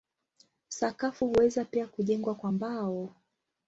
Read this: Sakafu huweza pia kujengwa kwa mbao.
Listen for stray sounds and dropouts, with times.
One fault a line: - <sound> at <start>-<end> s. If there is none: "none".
none